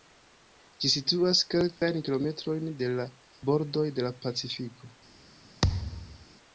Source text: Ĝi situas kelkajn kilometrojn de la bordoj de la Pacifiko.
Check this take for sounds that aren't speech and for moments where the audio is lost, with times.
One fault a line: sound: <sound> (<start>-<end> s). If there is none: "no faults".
sound: dropout (1.8-1.8 s)
sound: thud (5.6-6.3 s)